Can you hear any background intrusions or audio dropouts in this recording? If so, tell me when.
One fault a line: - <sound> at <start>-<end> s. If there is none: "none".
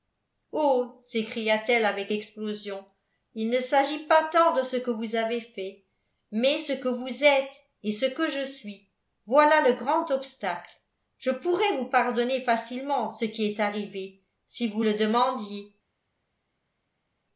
none